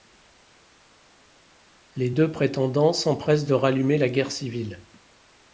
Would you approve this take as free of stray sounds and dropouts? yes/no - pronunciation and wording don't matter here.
yes